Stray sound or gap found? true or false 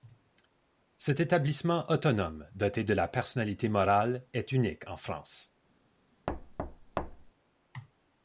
true